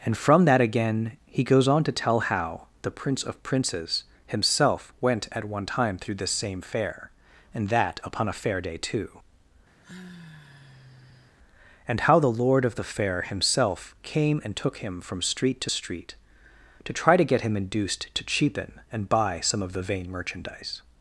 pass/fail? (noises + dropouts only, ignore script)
fail